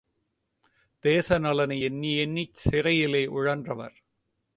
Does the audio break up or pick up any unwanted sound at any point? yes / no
no